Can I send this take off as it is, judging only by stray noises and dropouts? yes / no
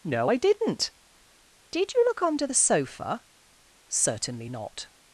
yes